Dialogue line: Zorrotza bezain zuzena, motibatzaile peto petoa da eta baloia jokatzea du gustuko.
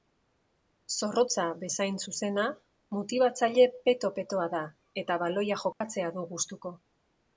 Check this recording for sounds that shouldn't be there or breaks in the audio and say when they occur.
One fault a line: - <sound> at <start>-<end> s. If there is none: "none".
- dropout at 5.7-5.8 s